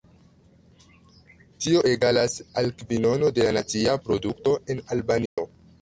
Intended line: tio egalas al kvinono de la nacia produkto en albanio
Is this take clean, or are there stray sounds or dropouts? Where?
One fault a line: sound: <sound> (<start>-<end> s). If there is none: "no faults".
sound: dropout (5.3-5.4 s)